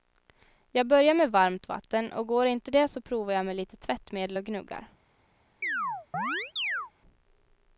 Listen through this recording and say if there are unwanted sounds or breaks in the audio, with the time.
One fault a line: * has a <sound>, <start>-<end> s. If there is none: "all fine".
* has a chirp, 5.6-6.9 s